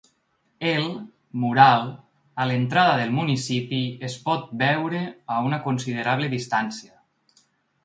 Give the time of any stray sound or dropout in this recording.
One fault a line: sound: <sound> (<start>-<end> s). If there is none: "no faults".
no faults